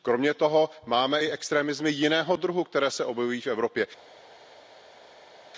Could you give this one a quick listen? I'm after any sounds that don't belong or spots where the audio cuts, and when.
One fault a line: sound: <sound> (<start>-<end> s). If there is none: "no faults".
no faults